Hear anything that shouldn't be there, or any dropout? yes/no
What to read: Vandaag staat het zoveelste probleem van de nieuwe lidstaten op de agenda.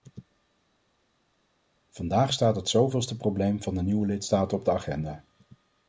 no